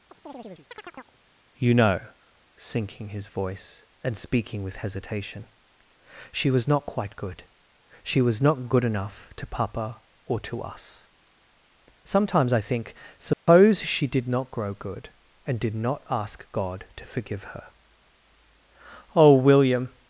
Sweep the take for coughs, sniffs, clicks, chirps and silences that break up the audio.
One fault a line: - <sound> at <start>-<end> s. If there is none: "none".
- chirp at 0.1-1.2 s
- dropout at 13.3-13.5 s